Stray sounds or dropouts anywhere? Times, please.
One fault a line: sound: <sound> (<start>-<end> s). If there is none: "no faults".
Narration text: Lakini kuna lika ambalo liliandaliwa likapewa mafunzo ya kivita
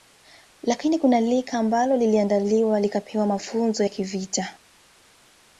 no faults